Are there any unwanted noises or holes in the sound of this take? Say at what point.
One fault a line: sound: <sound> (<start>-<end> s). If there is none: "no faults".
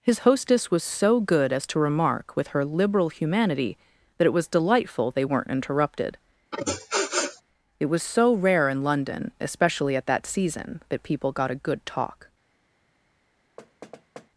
sound: sniff (6.5-7.4 s)
sound: thud (13.6-14.3 s)